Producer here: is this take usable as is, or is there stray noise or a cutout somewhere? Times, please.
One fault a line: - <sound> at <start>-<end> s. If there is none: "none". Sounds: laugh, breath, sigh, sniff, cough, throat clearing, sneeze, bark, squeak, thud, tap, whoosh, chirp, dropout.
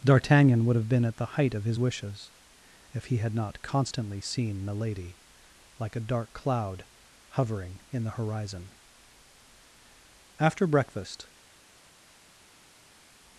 none